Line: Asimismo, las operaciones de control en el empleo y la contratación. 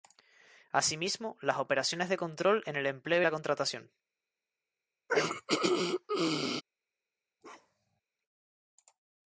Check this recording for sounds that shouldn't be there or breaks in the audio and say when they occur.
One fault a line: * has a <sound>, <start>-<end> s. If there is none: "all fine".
* has a throat clearing, 5.1-6.6 s
* has a bark, 7.4-8.0 s